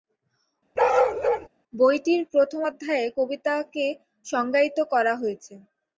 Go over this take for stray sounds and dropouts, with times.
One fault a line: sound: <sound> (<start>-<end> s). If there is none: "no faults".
sound: bark (0.8-1.5 s)